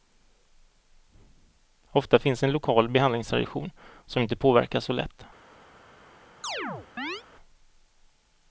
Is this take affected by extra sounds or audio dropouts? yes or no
yes